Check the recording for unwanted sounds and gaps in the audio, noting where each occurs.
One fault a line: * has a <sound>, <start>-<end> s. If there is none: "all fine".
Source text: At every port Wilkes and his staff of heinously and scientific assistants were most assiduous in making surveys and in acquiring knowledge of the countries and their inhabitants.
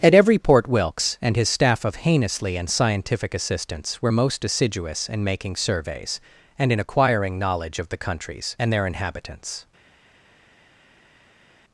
all fine